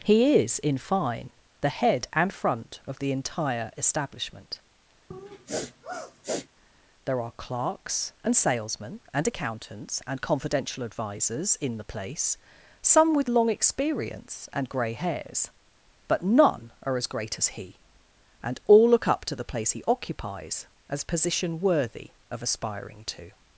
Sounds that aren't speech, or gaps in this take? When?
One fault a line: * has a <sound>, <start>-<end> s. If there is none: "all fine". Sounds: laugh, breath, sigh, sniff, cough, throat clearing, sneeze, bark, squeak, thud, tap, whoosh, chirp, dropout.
* has a sniff, 5.1-6.5 s